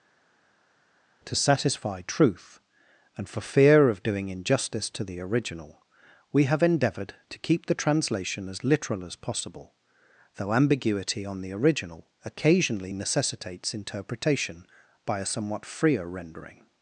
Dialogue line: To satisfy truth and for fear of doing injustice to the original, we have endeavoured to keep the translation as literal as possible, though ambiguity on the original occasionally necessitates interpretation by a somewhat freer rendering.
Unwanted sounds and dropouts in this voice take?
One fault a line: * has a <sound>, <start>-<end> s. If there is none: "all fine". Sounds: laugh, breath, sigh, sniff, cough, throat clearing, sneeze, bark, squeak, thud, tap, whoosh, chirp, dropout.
all fine